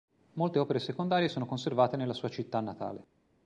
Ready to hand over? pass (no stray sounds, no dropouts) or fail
pass